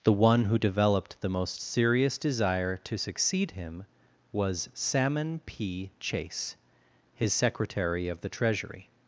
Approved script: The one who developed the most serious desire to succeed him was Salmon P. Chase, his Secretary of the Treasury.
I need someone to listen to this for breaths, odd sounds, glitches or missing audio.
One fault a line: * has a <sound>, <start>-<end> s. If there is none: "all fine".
all fine